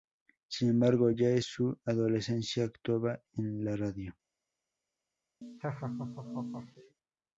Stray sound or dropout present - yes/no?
yes